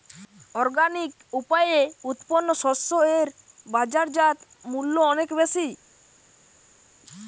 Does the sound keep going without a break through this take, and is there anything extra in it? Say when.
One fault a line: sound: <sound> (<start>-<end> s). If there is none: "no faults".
no faults